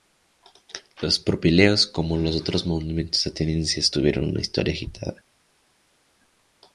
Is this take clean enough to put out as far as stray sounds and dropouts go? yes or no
yes